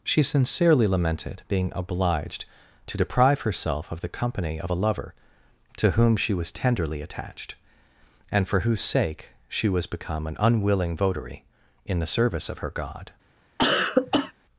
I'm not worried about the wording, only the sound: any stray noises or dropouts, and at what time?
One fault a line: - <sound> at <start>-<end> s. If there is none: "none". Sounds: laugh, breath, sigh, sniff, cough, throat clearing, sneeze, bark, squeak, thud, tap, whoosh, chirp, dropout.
- cough at 13.6-14.3 s